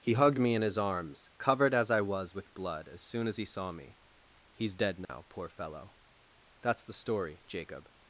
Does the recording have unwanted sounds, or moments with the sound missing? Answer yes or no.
yes